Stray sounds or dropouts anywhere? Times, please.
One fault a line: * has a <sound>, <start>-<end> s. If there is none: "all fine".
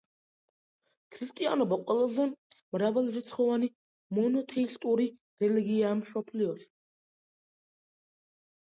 all fine